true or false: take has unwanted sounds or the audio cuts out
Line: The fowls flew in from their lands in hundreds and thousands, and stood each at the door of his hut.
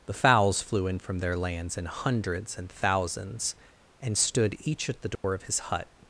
true